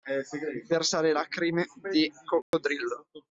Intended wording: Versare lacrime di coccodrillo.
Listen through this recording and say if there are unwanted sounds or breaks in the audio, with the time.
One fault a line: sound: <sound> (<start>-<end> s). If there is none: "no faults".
sound: dropout (2.4-2.5 s)